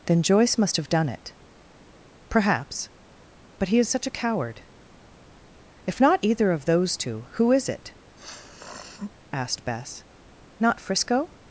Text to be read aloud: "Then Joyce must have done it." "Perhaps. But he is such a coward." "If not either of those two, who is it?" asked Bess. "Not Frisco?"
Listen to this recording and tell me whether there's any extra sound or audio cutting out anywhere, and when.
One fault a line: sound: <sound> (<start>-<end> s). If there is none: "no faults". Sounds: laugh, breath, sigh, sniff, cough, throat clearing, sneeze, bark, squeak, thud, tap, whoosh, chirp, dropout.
sound: sniff (8.2-9.1 s)